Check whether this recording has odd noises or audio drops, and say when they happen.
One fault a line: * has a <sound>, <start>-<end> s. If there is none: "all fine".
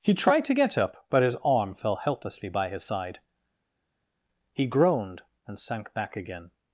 all fine